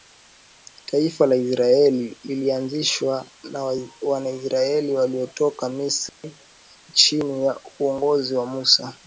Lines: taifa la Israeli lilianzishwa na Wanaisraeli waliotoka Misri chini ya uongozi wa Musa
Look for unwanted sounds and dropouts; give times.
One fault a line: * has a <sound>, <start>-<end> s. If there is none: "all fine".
* has a dropout, 6.1-6.2 s